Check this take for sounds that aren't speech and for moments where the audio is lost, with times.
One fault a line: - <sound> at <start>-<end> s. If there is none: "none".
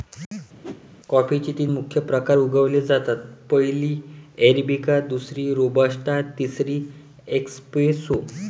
- whoosh at 0.6-0.9 s